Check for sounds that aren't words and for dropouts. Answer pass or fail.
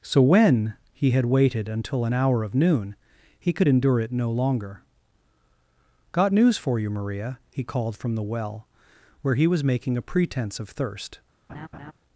fail